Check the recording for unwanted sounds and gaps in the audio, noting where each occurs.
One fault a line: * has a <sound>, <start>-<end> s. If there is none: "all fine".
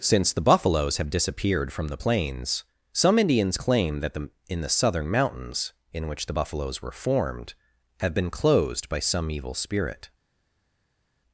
all fine